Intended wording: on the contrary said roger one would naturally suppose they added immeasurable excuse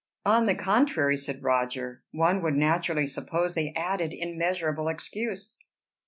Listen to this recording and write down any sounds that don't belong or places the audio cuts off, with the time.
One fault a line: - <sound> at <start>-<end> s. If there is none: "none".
none